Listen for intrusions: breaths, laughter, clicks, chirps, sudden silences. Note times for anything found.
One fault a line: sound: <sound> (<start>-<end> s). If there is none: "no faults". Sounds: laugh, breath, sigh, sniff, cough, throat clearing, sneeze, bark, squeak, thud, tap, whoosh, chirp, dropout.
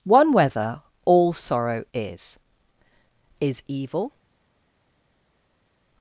no faults